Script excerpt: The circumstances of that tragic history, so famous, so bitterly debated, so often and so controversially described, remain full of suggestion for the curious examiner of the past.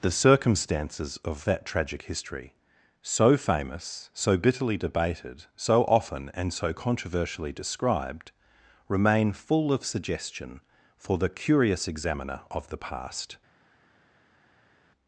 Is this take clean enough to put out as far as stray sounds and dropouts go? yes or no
yes